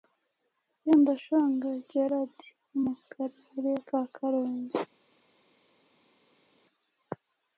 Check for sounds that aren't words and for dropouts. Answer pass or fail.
pass